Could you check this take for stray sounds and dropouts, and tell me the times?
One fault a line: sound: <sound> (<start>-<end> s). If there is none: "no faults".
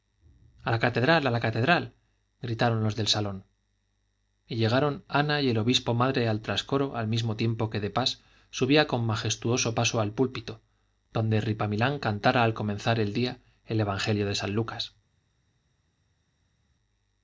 no faults